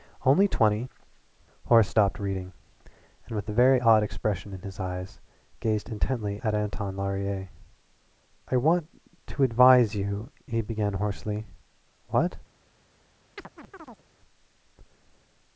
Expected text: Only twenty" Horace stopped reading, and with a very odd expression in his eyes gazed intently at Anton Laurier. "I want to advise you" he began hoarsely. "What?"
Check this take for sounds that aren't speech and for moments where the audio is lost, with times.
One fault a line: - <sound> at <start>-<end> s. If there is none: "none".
- chirp at 13.4-14.0 s